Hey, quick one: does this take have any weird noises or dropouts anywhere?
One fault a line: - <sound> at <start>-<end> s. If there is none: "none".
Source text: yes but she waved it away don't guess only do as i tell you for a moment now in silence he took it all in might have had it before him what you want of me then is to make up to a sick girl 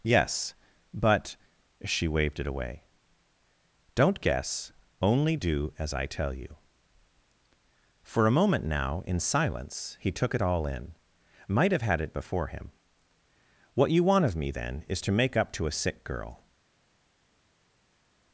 none